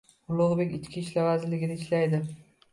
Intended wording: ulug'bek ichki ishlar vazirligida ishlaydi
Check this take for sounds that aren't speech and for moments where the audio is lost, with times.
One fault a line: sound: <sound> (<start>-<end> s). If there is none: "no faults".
no faults